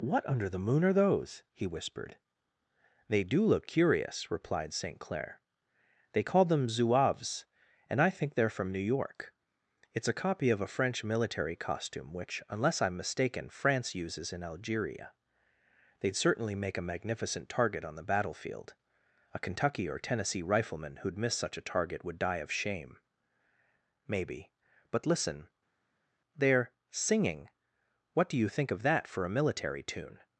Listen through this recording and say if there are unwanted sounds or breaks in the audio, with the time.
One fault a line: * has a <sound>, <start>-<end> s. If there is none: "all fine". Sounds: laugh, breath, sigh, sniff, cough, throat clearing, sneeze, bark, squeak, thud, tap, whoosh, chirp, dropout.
all fine